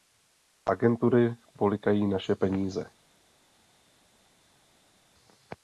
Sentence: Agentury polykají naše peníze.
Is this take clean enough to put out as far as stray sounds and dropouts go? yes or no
yes